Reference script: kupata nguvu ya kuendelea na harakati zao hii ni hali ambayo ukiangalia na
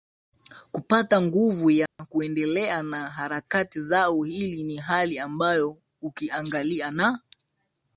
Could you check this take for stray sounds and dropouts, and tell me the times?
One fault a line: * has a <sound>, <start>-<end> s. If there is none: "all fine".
* has a dropout, 1.9-2.0 s